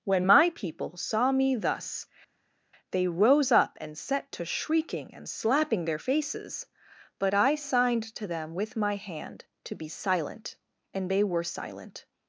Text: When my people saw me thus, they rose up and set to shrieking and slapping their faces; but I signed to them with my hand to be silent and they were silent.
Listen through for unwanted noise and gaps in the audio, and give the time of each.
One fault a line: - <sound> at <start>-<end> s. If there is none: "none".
none